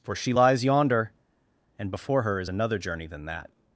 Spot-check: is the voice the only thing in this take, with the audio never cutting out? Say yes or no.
yes